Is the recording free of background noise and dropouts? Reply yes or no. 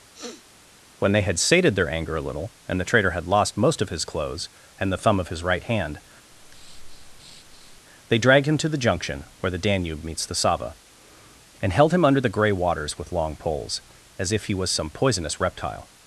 no